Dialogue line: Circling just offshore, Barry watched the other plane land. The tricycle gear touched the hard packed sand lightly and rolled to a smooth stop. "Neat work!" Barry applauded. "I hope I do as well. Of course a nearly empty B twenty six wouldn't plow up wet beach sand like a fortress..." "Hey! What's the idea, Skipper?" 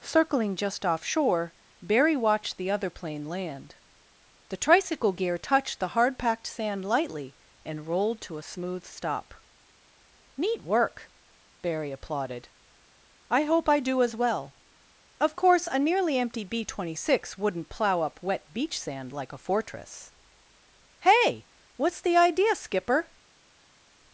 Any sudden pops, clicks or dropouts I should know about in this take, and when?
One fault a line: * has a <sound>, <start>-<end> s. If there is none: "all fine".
all fine